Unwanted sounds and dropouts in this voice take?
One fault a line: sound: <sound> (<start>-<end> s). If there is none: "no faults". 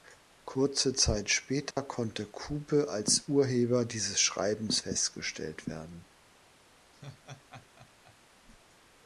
sound: dropout (1.7-1.8 s)
sound: laugh (6.9-8.2 s)